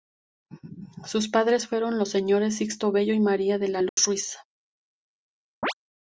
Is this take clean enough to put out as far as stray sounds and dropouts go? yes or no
no